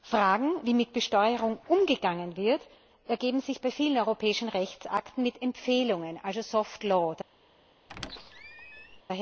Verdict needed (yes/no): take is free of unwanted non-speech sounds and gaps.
no